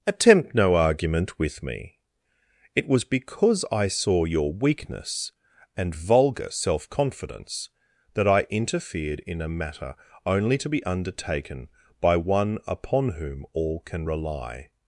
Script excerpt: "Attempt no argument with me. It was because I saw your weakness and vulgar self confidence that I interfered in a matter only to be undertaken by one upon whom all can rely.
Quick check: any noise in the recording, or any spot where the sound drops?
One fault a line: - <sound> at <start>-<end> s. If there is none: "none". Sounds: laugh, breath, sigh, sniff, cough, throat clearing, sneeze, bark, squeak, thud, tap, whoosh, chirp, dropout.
none